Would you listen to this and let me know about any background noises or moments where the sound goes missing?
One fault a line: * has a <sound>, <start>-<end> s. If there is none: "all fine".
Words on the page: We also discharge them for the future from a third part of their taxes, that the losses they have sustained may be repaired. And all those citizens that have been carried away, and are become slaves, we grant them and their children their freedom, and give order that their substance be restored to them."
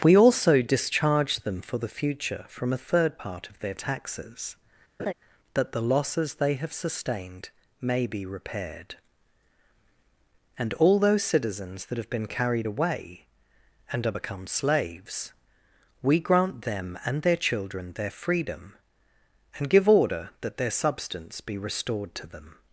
* has a laugh, 5.0-5.1 s